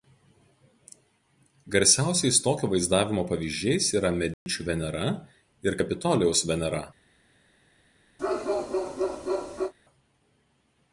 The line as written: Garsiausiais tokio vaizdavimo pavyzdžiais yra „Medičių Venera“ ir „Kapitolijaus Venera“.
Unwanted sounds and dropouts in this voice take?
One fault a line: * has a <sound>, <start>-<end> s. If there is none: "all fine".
* has a dropout, 4.3-4.5 s
* has a bark, 8.2-9.7 s